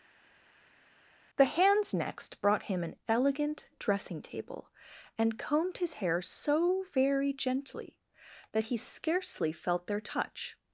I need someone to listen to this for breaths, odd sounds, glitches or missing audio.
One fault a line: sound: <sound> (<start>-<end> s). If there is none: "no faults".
no faults